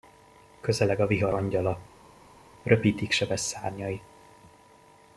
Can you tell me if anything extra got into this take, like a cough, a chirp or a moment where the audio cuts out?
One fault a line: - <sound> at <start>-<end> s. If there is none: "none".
none